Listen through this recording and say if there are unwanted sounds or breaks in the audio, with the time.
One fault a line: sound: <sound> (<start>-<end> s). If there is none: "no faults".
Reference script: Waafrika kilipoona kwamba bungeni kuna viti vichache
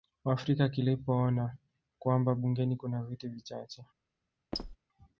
sound: squeak (4.5-4.8 s)